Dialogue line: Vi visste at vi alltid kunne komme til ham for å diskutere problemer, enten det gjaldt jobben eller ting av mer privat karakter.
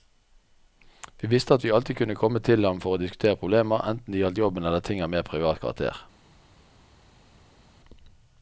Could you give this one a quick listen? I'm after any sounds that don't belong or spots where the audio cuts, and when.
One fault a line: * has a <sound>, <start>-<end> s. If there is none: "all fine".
all fine